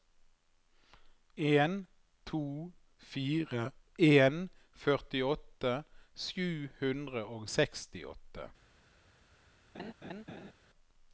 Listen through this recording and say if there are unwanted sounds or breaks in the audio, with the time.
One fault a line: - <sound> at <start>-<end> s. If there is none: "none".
- laugh at 9.7-10.5 s